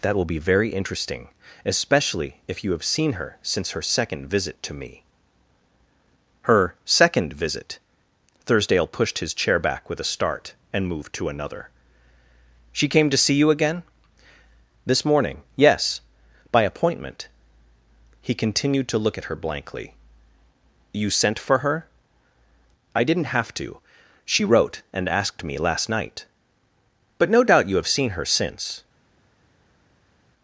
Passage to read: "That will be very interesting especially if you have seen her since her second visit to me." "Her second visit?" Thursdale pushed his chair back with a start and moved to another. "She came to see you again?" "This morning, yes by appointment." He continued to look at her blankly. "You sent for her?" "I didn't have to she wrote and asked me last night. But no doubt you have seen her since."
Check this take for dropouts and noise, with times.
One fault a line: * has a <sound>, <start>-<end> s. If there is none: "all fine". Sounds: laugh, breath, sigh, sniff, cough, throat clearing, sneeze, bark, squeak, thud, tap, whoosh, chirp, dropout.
all fine